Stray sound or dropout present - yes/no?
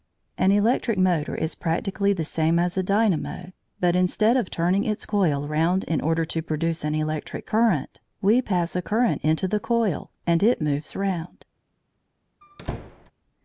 yes